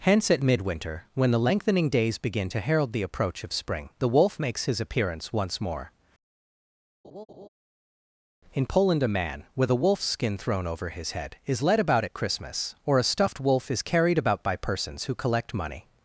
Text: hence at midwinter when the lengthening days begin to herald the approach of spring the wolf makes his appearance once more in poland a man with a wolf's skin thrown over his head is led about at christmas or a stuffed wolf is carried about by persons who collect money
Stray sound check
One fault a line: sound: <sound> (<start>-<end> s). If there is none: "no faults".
sound: laugh (7.0-7.5 s)